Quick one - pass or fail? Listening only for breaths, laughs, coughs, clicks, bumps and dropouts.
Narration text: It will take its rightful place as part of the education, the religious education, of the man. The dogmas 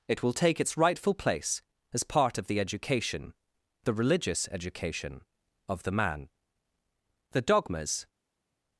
pass